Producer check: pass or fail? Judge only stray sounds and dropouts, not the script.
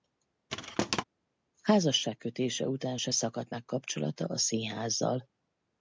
fail